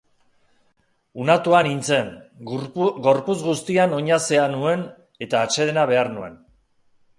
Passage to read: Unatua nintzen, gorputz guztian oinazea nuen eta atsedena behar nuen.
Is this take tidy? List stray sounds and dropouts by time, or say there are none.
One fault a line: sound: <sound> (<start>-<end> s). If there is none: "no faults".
no faults